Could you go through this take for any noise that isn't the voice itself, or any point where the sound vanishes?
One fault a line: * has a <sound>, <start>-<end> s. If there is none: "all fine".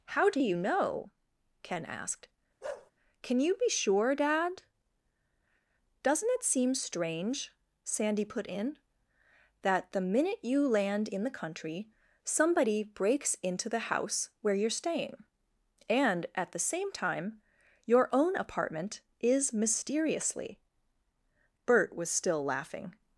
* has a bark, 2.6-2.9 s